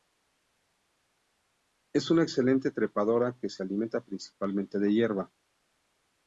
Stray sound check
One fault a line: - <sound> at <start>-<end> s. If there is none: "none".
none